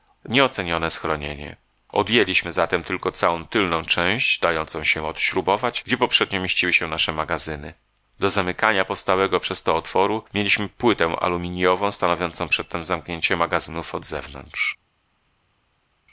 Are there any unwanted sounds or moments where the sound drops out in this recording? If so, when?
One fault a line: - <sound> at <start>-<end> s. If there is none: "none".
none